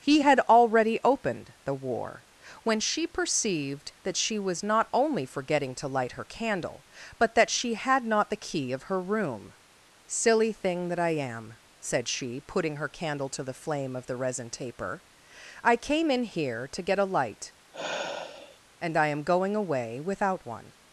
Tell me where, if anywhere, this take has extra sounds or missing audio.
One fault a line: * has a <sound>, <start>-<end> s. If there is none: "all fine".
* has a sigh, 17.7-18.6 s